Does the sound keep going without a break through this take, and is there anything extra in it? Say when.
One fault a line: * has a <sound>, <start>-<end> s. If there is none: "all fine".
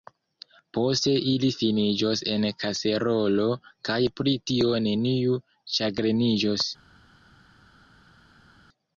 all fine